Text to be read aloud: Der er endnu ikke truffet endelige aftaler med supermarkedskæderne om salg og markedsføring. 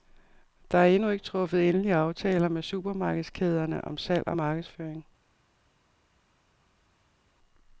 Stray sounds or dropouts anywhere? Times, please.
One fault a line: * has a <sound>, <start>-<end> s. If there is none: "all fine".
all fine